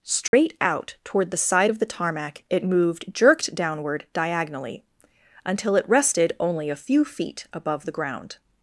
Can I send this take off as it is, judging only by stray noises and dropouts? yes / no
no